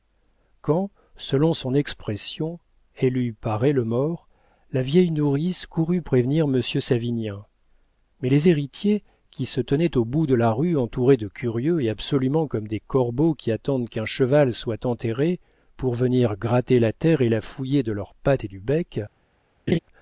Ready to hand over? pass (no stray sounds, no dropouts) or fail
fail